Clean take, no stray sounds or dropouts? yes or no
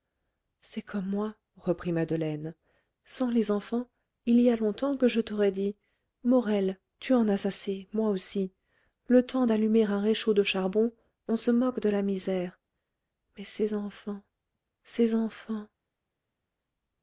yes